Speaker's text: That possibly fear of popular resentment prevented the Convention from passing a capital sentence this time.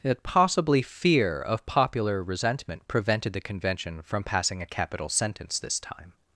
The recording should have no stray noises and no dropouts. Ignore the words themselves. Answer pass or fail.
pass